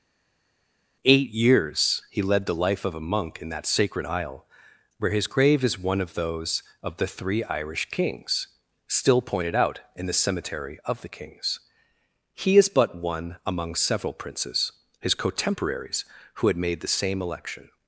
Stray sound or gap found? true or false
false